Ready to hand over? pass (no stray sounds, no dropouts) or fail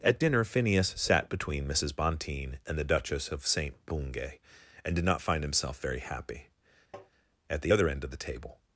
fail